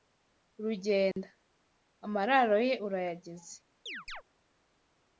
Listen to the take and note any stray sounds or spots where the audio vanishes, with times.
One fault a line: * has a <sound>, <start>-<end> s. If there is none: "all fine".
* has a dropout, 1.1-1.2 s
* has a chirp, 3.9-4.2 s